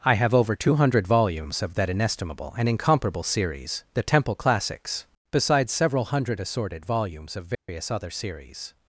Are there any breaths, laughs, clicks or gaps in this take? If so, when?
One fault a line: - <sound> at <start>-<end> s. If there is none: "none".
- dropout at 7.5-7.7 s